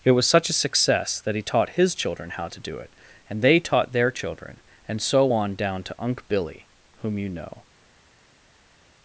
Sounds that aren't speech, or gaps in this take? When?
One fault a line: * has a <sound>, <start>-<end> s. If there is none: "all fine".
all fine